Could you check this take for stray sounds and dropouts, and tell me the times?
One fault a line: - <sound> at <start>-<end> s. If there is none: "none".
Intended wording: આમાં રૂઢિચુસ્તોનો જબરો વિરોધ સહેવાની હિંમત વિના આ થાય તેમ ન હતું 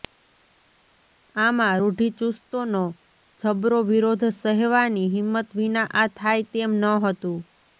none